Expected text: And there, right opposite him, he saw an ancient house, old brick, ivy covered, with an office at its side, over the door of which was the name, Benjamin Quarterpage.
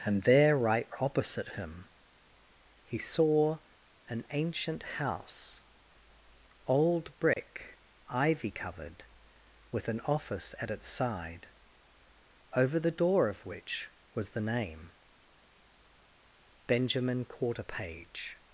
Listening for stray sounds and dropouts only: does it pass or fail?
fail